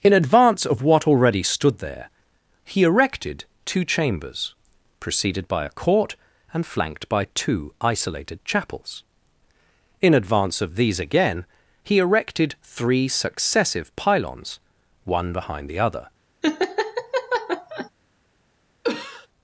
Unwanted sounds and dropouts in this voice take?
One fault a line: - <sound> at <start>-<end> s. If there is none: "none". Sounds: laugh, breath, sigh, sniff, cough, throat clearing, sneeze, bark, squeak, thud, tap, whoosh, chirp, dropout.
- laugh at 16.4-17.9 s
- cough at 18.8-19.3 s